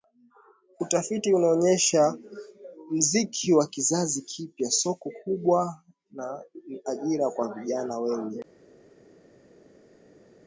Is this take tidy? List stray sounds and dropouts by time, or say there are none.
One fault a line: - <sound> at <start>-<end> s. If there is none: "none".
none